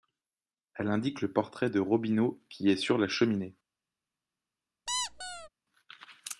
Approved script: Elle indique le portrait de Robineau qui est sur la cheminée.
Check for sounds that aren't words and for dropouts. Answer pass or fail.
fail